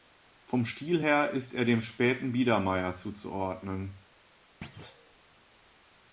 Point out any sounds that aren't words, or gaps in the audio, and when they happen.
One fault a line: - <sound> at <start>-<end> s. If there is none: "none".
- thud at 4.6-5.2 s